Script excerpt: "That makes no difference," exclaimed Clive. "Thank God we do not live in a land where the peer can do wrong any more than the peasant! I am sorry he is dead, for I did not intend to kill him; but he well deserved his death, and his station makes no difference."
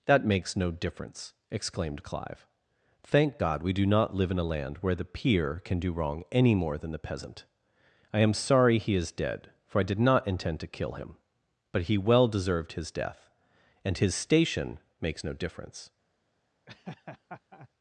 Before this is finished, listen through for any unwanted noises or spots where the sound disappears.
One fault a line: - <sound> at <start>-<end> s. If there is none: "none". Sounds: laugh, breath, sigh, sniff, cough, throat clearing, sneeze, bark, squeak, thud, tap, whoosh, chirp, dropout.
- laugh at 16.7-17.7 s